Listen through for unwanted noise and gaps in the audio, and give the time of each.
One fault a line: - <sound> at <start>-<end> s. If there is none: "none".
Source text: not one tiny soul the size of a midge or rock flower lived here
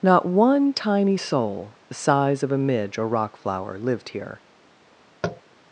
- tap at 5.2-5.4 s